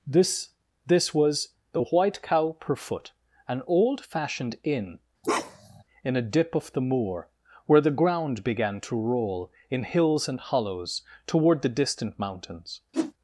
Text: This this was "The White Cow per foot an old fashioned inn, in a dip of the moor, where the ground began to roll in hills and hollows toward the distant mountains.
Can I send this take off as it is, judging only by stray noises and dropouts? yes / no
no